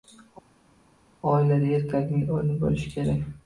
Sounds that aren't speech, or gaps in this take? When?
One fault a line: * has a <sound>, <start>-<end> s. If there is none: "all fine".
all fine